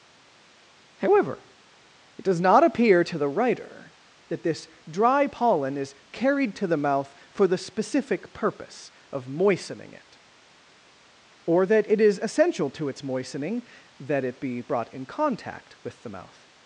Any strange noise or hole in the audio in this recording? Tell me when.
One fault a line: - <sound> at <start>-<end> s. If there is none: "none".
none